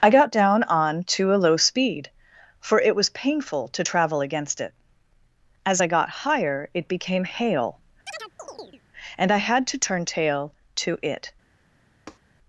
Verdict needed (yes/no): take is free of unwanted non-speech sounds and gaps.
no